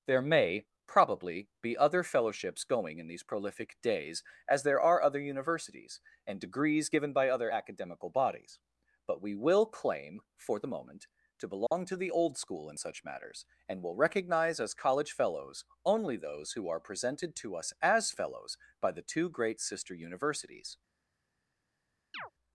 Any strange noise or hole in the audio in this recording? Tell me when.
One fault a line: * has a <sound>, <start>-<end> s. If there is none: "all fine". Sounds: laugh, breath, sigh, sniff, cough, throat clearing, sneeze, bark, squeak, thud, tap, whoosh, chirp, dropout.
* has a dropout, 11.7-11.7 s
* has a chirp, 22.1-22.3 s